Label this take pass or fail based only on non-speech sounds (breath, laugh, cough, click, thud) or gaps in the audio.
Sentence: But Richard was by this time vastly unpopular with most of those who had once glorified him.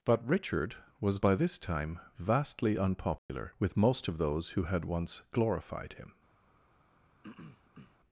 fail